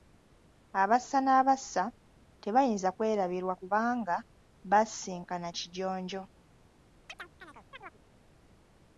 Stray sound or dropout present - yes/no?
yes